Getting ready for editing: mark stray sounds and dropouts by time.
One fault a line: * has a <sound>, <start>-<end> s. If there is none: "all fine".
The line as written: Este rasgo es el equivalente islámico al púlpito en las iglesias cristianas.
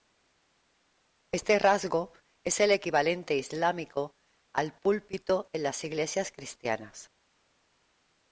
all fine